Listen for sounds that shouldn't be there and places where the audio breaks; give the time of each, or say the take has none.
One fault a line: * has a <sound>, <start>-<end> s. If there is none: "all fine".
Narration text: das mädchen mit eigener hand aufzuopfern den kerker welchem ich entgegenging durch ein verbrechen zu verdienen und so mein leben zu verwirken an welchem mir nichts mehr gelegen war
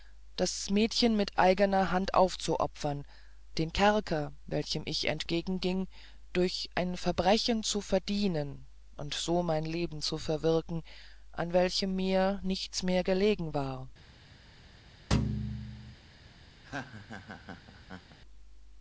* has a thud, 15.1-15.9 s
* has a laugh, 16.6-18.2 s